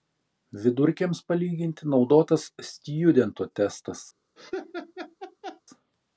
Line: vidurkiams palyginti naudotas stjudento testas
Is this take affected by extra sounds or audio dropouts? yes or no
yes